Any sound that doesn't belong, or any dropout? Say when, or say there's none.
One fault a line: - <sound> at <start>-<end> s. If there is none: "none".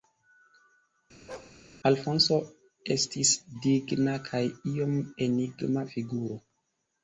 - bark at 1.3-1.6 s